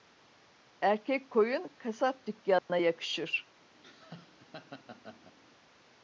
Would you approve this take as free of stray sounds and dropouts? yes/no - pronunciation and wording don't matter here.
no